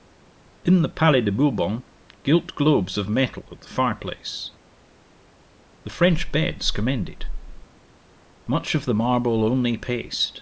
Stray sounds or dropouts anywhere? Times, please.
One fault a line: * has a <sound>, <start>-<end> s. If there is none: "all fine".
all fine